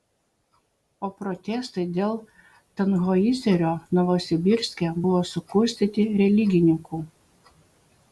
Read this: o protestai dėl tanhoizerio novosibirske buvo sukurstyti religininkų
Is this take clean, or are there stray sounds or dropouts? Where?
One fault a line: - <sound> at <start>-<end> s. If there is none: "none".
none